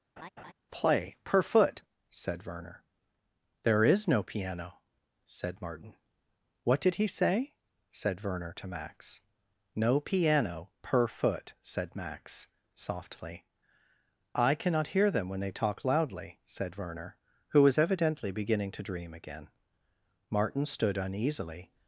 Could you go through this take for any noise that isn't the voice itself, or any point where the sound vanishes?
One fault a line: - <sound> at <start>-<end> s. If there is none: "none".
- laugh at 0.2-0.5 s